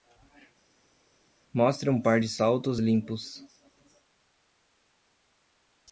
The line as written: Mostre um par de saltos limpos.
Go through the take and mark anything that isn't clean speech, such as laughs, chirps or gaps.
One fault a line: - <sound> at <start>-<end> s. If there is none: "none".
none